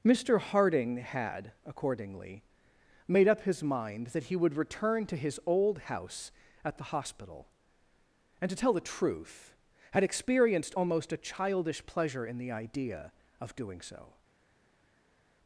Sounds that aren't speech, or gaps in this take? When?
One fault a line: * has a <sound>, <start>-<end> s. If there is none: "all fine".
all fine